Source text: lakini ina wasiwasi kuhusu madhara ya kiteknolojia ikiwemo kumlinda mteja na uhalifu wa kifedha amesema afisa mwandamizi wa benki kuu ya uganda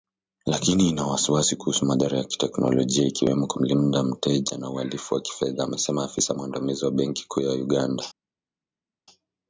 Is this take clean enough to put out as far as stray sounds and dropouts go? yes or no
yes